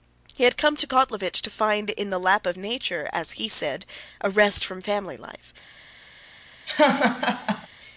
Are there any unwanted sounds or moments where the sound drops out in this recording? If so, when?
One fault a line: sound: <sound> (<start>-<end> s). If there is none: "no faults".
sound: laugh (6.7-7.7 s)